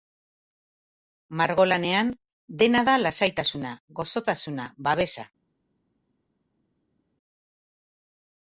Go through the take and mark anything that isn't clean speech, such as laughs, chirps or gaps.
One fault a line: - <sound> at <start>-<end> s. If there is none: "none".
none